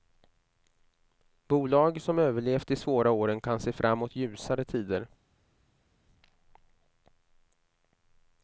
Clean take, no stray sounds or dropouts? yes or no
yes